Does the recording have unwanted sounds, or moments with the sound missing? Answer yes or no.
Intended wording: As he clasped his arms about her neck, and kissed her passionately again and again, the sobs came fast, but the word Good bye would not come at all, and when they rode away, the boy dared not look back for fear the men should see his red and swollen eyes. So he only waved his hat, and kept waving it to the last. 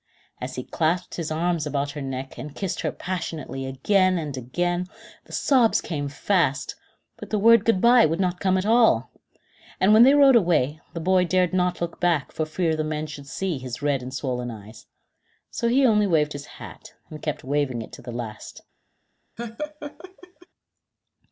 yes